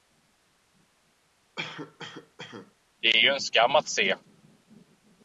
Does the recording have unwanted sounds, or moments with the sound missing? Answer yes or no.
yes